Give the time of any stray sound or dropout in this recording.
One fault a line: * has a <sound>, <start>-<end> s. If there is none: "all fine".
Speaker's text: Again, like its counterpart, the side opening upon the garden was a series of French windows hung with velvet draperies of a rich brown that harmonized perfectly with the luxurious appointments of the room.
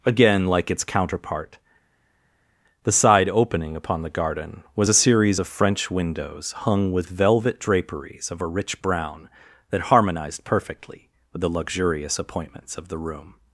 all fine